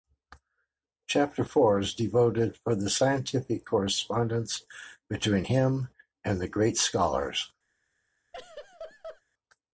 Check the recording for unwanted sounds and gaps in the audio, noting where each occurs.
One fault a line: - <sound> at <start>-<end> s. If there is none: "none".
- laugh at 8.3-9.2 s